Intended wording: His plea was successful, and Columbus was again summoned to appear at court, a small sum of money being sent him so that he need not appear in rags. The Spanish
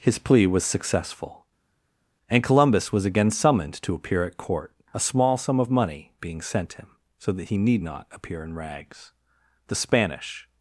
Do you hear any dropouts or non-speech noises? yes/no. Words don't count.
no